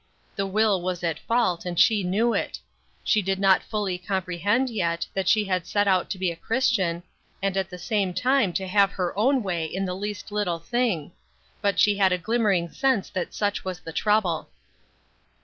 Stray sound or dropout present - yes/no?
no